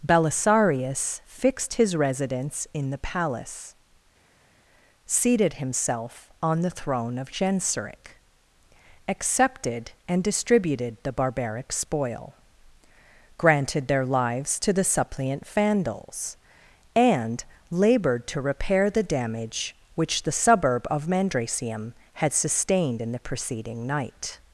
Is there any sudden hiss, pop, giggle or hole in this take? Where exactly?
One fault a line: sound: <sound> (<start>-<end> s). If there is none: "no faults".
no faults